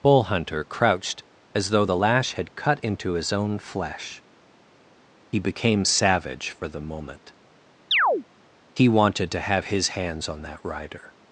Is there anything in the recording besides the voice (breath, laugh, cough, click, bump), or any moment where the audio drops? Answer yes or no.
yes